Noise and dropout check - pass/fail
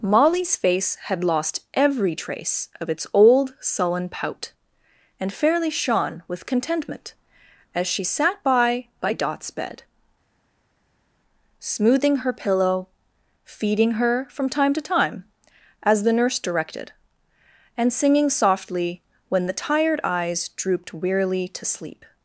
pass